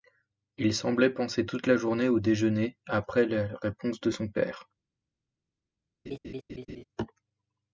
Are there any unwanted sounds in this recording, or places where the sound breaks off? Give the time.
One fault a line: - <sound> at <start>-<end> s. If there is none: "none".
- laugh at 6.1-6.8 s